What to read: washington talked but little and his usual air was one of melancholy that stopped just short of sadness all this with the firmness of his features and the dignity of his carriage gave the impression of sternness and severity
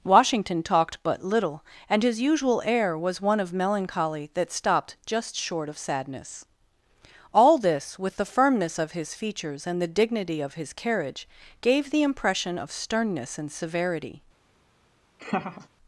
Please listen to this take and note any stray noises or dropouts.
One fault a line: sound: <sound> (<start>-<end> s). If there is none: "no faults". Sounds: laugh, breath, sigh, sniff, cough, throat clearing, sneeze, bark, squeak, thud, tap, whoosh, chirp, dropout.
sound: laugh (15.2-15.7 s)